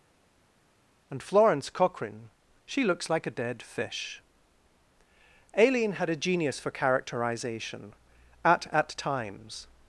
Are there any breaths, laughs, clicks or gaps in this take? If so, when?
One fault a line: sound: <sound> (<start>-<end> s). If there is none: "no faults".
no faults